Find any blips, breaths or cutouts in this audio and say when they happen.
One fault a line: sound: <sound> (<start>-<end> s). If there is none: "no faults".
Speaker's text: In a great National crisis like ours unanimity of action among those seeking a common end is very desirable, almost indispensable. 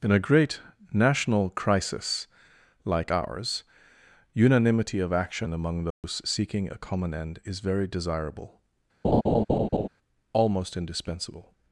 sound: dropout (5.9-6.0 s)
sound: laugh (9.0-9.9 s)